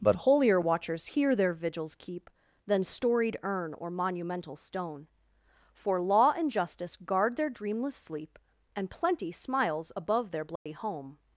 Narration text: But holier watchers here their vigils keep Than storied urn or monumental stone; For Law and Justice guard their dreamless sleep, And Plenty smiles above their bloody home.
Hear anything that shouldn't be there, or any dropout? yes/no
yes